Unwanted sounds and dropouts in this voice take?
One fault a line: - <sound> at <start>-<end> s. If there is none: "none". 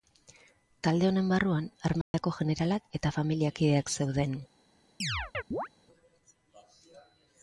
- dropout at 2.0-2.1 s
- chirp at 5.0-5.7 s